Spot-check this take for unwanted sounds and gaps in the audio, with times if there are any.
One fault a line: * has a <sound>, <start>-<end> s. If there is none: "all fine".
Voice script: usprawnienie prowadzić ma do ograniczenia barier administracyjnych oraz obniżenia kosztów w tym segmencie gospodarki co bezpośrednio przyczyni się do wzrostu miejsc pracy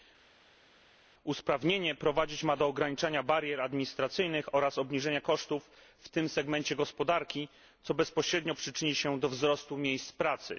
all fine